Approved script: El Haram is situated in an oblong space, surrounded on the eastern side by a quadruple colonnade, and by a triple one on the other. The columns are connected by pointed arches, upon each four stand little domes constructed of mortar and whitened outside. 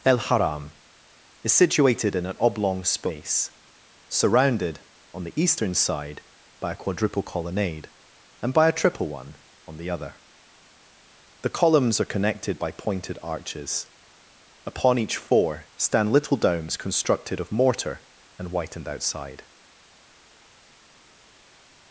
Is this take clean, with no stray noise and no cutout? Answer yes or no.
yes